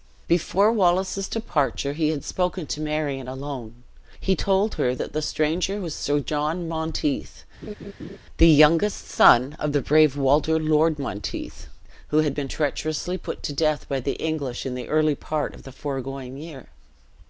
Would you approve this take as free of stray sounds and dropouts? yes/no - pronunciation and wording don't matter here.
no